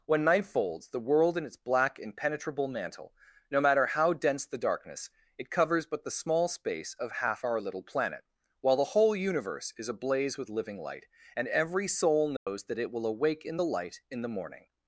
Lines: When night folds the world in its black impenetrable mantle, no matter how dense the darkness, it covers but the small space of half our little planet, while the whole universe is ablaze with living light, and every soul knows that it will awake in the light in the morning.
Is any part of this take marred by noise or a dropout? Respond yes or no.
yes